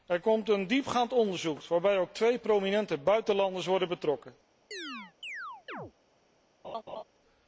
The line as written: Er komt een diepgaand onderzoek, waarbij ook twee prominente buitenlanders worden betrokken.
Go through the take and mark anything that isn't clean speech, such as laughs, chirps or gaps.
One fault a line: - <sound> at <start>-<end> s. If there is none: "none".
- chirp at 4.7-5.9 s
- laugh at 6.6-7.0 s